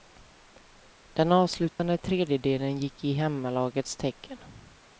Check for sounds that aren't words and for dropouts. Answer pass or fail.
fail